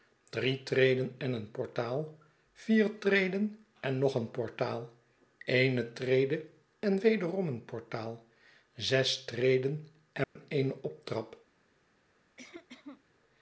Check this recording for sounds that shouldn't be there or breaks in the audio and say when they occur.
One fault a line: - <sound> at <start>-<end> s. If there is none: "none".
- dropout at 10.2-10.4 s
- cough at 12.4-13.0 s